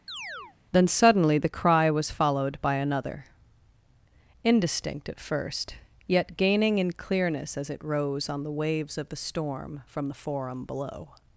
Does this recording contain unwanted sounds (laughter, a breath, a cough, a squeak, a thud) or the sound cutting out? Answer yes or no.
yes